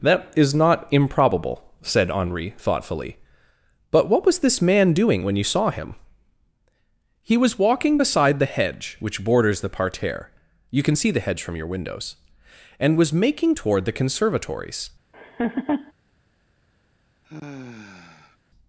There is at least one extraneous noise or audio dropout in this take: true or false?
true